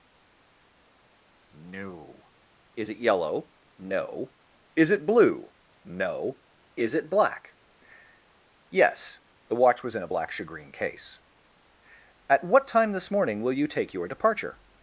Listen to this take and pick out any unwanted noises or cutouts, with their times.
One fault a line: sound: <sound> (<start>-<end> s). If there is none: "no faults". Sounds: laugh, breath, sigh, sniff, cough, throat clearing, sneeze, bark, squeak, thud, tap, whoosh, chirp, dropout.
no faults